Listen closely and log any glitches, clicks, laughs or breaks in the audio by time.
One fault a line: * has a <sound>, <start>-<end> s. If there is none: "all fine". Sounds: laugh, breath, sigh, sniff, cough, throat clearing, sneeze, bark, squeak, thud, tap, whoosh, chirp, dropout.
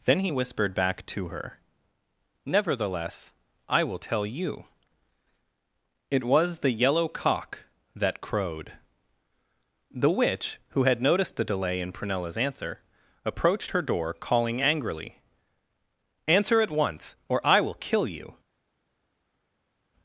all fine